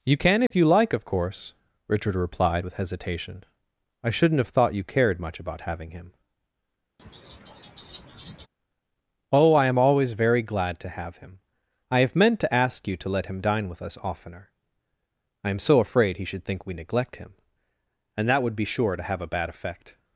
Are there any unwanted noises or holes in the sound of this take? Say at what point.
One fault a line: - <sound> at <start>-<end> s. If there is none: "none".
- dropout at 0.5-0.5 s
- laugh at 7.0-8.5 s